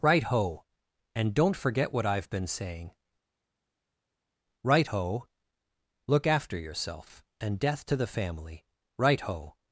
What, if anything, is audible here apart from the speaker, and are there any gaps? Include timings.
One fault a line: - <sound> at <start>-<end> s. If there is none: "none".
none